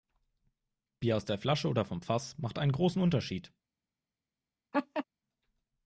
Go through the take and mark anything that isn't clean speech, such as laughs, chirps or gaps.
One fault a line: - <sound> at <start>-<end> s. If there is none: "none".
- laugh at 4.7-5.0 s